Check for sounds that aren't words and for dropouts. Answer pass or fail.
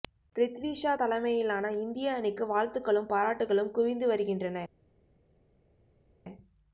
pass